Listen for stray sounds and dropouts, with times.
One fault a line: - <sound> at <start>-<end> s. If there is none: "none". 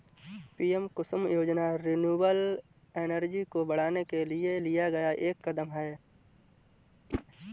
- whoosh at 7.1-7.2 s